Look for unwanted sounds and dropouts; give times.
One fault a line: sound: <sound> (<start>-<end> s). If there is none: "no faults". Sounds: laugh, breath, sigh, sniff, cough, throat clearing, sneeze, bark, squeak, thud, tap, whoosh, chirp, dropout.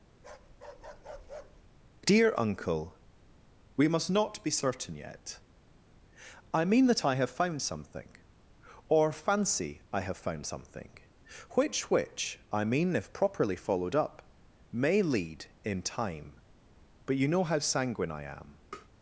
sound: bark (0.2-1.6 s)
sound: tap (18.7-18.9 s)